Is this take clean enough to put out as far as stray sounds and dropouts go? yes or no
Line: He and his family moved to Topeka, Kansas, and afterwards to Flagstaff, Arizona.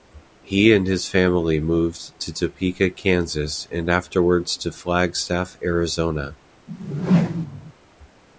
no